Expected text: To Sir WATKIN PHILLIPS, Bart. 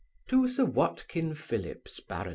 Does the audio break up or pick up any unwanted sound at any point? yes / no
no